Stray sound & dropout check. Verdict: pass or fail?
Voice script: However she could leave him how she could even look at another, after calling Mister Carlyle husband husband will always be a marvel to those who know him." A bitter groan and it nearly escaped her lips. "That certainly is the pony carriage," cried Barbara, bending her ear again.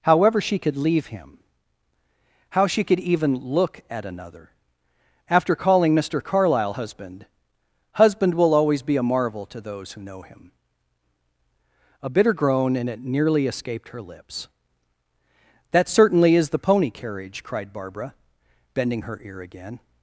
pass